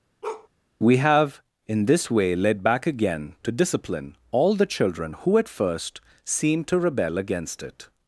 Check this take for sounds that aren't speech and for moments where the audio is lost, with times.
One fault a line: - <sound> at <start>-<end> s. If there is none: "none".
- bark at 0.2-0.5 s